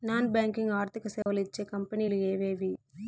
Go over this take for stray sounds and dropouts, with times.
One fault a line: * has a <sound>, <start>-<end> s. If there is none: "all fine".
* has a dropout, 1.2-1.3 s